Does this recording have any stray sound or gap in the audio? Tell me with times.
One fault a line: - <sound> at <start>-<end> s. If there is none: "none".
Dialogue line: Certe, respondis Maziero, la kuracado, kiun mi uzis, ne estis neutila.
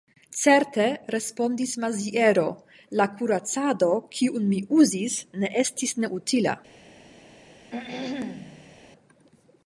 - throat clearing at 7.7-8.8 s